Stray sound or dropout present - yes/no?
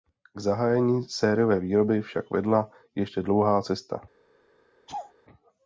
yes